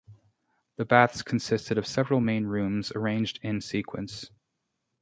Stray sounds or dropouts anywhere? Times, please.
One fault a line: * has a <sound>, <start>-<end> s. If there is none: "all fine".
all fine